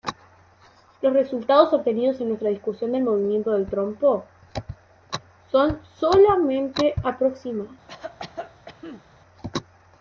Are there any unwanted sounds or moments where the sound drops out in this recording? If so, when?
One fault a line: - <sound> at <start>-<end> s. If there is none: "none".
- cough at 7.9-9.0 s